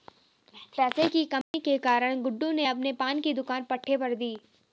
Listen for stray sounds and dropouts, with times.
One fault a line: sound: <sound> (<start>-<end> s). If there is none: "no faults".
sound: dropout (1.4-1.5 s)